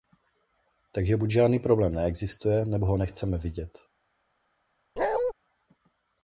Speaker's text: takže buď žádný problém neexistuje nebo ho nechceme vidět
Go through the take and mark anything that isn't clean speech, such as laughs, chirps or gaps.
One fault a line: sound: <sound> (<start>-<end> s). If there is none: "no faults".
sound: bark (5.0-5.3 s)